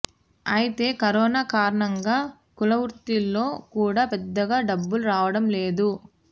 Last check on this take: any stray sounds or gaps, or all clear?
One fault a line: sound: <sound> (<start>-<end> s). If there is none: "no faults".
no faults